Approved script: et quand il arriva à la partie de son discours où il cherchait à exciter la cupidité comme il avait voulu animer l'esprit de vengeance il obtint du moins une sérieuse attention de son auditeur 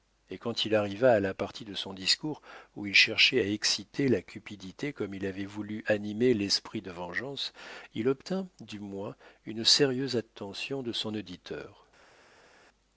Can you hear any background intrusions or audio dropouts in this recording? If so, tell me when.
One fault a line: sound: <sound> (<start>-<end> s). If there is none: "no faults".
no faults